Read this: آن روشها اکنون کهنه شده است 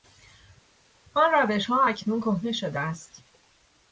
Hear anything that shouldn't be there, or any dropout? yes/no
no